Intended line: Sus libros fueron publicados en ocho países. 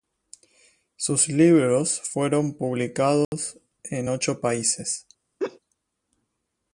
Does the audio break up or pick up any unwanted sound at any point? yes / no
yes